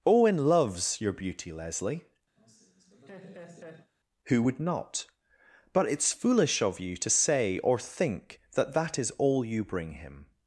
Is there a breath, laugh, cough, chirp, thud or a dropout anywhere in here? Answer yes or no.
yes